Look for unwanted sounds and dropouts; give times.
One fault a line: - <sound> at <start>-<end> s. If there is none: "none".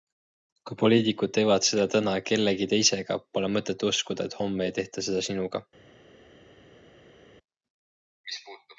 none